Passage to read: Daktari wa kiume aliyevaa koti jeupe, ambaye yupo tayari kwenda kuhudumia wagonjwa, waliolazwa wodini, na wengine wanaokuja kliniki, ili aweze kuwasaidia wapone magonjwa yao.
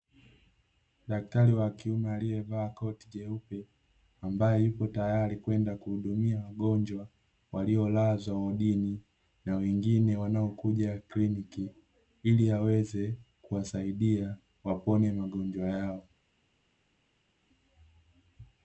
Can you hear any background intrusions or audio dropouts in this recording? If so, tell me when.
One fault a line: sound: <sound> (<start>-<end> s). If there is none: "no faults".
no faults